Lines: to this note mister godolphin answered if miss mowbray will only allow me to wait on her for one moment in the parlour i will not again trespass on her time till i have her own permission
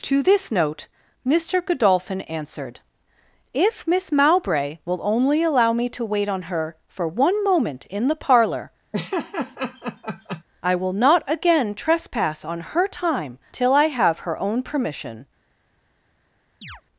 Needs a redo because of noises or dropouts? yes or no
yes